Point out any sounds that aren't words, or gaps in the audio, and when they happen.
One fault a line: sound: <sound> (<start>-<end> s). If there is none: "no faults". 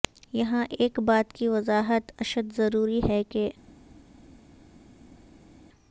no faults